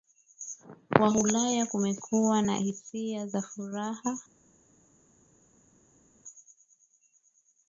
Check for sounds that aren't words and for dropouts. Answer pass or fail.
pass